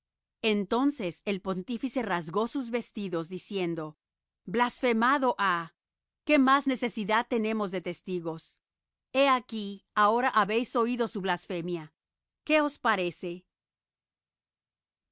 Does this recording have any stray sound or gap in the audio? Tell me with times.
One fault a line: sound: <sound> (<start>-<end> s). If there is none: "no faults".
no faults